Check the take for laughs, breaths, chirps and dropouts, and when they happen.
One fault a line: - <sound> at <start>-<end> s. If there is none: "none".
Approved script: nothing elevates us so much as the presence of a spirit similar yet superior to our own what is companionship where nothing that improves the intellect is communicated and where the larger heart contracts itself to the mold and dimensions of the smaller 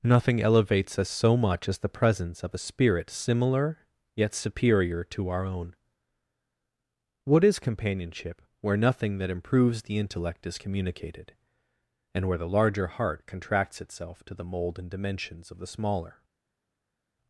none